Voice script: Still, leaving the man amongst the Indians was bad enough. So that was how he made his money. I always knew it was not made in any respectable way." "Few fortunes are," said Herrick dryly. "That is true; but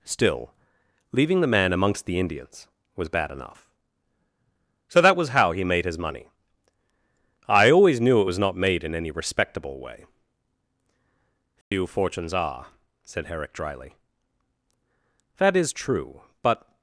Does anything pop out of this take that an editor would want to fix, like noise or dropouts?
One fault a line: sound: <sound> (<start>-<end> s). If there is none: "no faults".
sound: dropout (11.6-11.7 s)